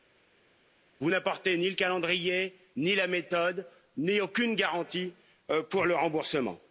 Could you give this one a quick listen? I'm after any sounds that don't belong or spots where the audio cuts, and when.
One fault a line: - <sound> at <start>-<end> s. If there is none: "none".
none